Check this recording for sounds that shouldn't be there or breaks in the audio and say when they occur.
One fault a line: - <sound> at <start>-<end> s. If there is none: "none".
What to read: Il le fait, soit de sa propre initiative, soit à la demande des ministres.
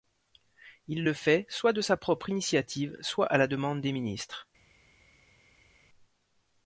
none